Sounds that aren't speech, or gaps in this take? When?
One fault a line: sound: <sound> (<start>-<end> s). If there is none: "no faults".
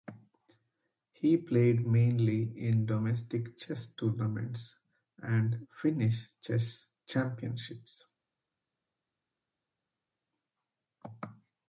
no faults